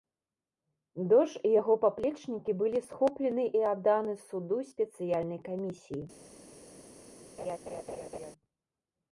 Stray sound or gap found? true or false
true